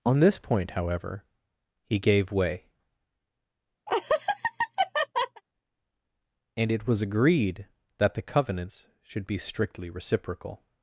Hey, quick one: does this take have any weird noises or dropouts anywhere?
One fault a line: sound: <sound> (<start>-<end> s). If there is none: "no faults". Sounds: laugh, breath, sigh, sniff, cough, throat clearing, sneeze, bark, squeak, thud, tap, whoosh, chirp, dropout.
sound: laugh (3.9-5.4 s)